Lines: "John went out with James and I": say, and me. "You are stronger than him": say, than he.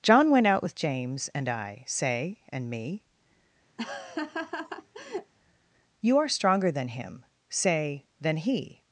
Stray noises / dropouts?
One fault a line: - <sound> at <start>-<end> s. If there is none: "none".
- laugh at 3.8-5.3 s